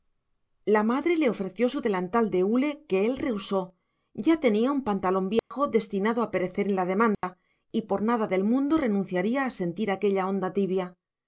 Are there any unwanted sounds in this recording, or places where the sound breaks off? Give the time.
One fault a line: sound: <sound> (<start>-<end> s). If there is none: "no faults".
sound: dropout (5.4-5.5 s)
sound: dropout (7.1-7.2 s)